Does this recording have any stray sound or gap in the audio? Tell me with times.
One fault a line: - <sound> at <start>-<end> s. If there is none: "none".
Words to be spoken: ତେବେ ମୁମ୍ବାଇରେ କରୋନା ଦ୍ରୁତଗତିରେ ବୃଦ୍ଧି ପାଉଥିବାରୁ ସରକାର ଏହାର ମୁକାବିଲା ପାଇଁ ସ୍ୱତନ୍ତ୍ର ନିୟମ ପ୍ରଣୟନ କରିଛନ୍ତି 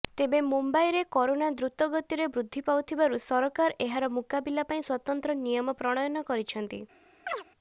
- chirp at 7.3-7.4 s